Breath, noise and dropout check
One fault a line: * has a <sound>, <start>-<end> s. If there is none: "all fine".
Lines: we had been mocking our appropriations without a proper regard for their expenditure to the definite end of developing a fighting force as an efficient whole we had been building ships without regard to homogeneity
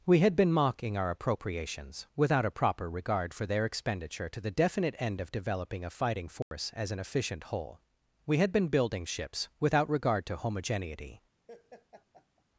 * has a dropout, 6.4-6.5 s
* has a laugh, 11.5-12.5 s